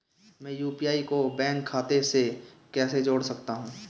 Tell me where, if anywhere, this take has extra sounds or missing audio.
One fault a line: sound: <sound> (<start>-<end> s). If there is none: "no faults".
no faults